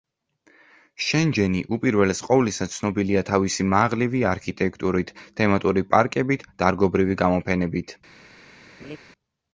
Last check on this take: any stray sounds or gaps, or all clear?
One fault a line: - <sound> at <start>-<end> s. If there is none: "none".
- laugh at 8.8-9.0 s